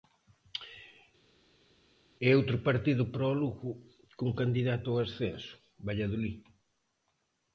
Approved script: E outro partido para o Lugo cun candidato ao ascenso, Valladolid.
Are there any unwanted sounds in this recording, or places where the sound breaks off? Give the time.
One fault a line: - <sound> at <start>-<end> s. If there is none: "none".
none